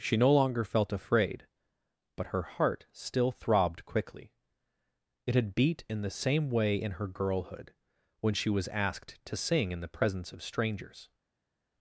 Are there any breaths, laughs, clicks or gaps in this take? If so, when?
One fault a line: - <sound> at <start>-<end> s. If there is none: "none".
none